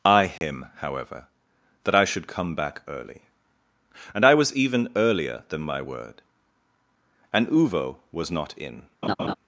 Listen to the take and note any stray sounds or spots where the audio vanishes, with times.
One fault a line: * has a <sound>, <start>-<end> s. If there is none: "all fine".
* has a dropout, 0.4-0.4 s
* has a laugh, 9.0-9.3 s